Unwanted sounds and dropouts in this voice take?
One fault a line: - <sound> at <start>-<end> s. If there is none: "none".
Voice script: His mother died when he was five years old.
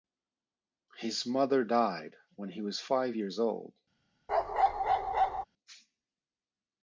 - bark at 4.3-5.4 s